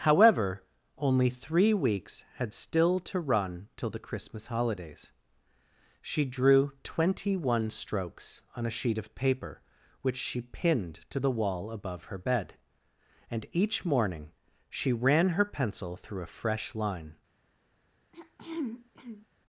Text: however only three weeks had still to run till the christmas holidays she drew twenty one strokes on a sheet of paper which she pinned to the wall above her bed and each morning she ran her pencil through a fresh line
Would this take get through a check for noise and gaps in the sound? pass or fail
fail